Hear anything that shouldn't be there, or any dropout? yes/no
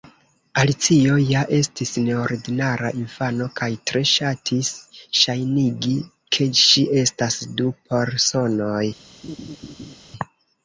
yes